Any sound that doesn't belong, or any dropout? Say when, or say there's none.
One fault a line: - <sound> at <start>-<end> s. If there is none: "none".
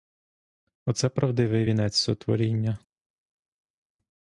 none